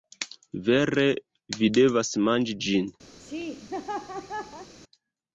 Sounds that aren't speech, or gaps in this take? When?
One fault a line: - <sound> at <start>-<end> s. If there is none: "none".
- laugh at 3.2-4.7 s